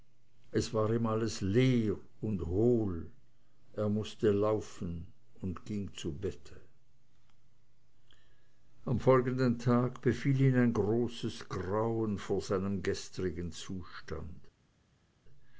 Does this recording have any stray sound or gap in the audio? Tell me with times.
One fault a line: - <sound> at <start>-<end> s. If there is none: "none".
none